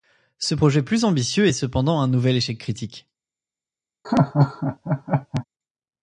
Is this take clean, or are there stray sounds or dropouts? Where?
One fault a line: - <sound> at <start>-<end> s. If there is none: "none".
- laugh at 4.0-5.4 s